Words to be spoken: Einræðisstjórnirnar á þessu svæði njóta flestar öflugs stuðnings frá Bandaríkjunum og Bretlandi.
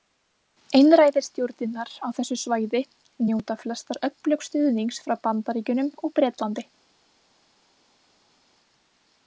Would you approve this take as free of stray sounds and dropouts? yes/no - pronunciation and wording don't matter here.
yes